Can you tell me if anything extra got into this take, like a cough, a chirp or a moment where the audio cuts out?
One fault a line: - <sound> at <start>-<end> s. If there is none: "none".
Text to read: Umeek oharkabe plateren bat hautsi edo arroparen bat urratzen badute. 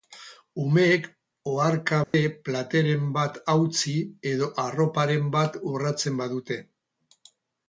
- dropout at 2.0-2.1 s